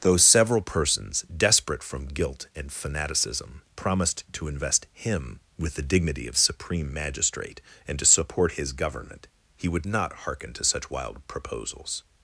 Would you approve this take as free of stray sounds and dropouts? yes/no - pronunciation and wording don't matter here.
yes